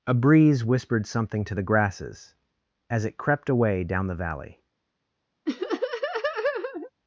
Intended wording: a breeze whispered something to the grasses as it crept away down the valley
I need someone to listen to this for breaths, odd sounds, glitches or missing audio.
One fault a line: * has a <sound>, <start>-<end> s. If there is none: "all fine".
* has a laugh, 5.5-6.9 s